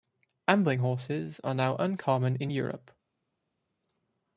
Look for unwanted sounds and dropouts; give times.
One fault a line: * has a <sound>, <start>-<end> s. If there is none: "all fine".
all fine